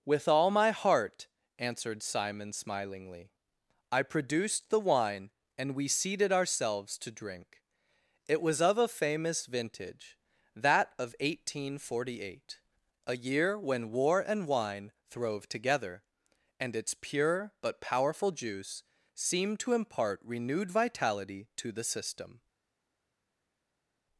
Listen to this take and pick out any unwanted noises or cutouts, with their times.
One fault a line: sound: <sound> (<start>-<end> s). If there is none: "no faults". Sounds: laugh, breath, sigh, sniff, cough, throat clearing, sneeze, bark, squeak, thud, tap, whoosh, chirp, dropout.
no faults